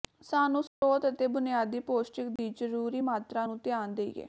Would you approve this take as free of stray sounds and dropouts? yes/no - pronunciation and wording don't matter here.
no